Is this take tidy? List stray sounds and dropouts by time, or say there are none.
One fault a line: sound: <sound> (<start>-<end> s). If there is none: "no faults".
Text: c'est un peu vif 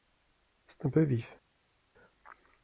no faults